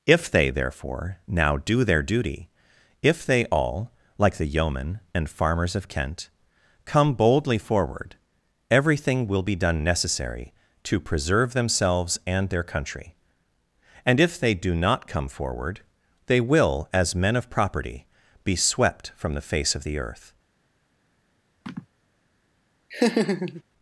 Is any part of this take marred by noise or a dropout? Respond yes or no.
yes